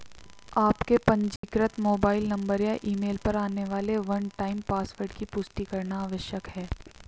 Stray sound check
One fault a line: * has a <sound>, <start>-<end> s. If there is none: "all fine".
* has a dropout, 1.4-1.4 s